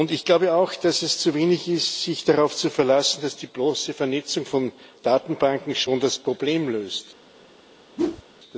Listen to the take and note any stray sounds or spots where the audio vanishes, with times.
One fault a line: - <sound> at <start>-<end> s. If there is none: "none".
- whoosh at 8.0-8.2 s